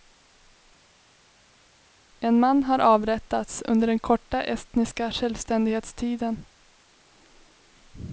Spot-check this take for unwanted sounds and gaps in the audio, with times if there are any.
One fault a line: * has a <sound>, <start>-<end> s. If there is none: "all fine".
all fine